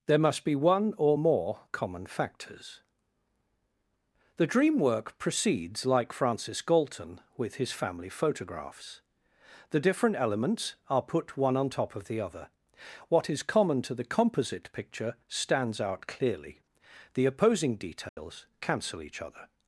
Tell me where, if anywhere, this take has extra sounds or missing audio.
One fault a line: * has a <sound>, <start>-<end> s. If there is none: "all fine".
* has a dropout, 18.1-18.2 s